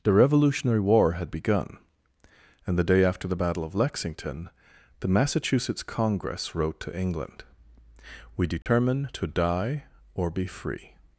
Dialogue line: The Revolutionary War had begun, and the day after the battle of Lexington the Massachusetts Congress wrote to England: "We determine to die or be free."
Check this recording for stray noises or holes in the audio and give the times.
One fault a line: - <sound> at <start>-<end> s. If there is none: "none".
- dropout at 8.6-8.7 s